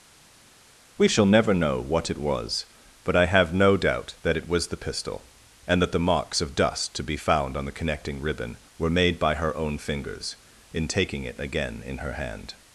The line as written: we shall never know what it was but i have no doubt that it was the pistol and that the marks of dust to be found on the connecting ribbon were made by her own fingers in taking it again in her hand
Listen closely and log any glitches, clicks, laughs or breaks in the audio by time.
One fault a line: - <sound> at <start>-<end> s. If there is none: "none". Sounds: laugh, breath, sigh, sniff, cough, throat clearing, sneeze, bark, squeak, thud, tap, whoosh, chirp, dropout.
none